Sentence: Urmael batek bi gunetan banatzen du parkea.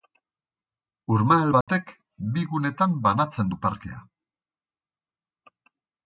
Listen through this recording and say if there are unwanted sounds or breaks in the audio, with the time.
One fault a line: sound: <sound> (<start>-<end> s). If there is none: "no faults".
sound: dropout (1.6-1.7 s)